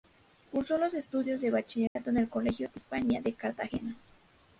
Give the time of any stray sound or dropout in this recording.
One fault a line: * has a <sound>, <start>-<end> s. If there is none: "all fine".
* has a dropout, 1.9-2.0 s